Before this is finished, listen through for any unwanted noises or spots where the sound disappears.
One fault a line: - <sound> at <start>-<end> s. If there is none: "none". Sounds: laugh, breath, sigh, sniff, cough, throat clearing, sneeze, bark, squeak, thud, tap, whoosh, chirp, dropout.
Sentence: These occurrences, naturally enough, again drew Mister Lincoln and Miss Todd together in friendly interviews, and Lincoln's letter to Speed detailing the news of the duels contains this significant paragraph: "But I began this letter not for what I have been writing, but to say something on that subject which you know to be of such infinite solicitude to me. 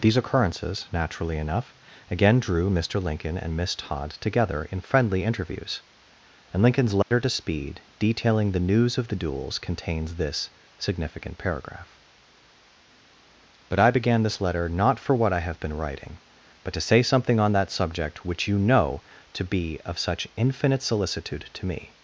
- dropout at 7.0-7.1 s